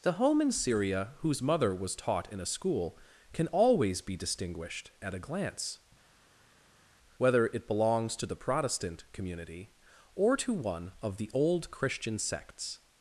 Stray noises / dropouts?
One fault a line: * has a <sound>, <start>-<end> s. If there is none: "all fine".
all fine